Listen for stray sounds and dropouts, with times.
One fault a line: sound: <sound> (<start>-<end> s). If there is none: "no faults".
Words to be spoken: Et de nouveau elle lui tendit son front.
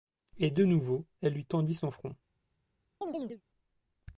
sound: chirp (3.0-3.4 s)